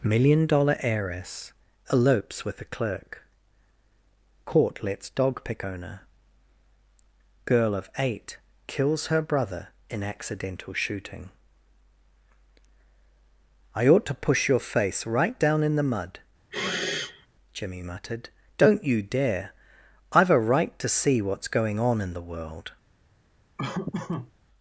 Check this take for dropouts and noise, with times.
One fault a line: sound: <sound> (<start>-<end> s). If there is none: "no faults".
sound: sniff (16.5-17.3 s)
sound: laugh (23.6-24.3 s)